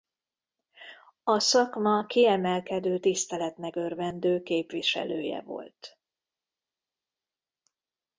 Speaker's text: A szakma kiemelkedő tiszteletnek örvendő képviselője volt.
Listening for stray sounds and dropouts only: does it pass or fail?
pass